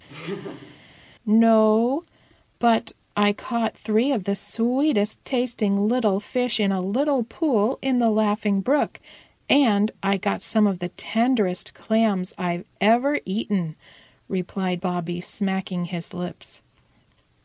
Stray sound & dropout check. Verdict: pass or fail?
fail